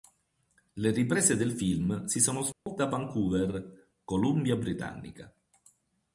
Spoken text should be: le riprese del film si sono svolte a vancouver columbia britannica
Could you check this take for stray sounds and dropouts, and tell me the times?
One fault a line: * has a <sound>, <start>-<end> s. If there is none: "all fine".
* has a dropout, 2.5-2.7 s